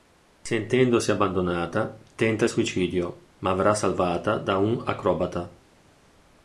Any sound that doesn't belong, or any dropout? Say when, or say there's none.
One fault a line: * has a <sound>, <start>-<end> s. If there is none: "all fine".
all fine